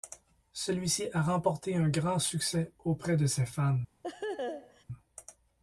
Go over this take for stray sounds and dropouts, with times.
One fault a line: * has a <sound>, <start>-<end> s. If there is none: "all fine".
* has a laugh, 4.0-4.8 s